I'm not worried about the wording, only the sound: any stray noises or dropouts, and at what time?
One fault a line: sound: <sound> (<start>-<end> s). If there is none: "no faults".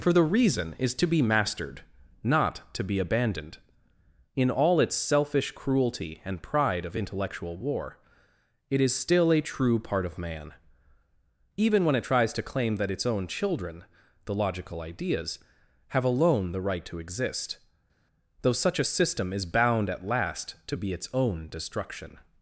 no faults